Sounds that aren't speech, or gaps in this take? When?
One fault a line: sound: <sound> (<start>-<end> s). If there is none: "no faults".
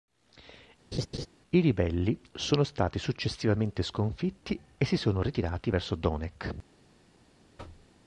sound: laugh (0.9-1.3 s)
sound: thud (7.6-7.9 s)